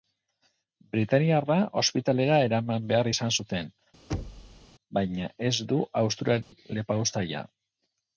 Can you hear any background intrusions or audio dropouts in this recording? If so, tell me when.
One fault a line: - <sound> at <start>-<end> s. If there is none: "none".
- thud at 4.1-4.7 s
- dropout at 6.4-6.5 s